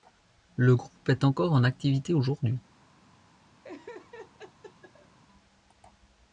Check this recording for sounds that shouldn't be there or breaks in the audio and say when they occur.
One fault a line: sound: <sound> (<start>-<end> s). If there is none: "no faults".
sound: laugh (3.6-5.2 s)